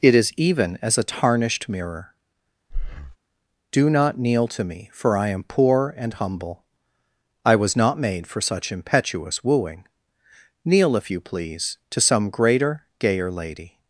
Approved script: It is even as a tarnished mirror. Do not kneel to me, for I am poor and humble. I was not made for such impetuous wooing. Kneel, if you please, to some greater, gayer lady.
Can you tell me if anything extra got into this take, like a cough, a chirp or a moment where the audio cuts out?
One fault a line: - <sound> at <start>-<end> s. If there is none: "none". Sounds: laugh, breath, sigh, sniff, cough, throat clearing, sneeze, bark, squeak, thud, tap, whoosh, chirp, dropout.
- breath at 2.7-3.2 s